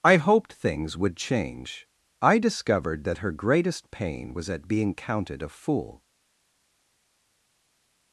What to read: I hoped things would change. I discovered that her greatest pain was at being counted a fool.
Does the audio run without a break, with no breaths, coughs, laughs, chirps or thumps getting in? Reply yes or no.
yes